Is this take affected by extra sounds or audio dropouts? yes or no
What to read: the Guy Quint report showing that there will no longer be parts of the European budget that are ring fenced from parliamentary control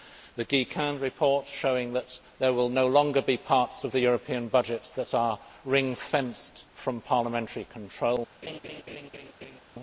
yes